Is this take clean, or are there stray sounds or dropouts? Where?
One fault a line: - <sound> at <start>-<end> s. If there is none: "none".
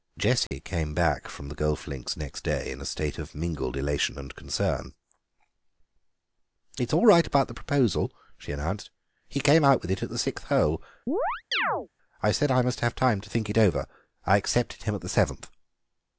- dropout at 0.5-0.5 s
- chirp at 11.1-11.9 s